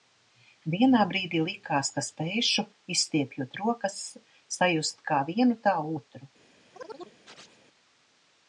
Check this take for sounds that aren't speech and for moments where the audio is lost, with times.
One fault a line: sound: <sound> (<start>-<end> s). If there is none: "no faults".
sound: chirp (6.7-7.6 s)